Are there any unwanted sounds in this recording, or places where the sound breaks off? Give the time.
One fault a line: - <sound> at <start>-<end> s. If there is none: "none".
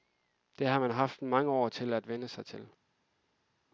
none